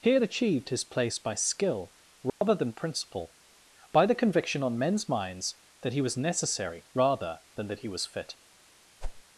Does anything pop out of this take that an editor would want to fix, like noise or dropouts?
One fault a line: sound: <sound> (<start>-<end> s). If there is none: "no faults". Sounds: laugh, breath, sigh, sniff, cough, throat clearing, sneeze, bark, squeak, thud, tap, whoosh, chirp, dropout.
sound: dropout (2.3-2.4 s)
sound: whoosh (9.0-9.2 s)